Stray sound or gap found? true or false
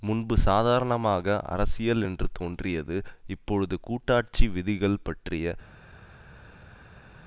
false